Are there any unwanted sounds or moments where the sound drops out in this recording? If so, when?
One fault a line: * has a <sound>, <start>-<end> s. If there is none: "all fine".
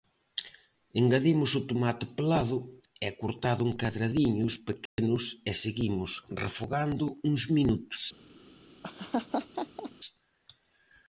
* has a dropout, 4.9-5.0 s
* has a laugh, 8.8-9.9 s